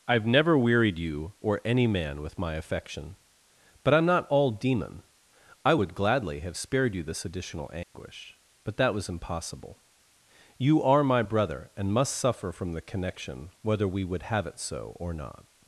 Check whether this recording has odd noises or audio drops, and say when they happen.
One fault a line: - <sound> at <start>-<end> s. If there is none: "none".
- dropout at 7.8-7.9 s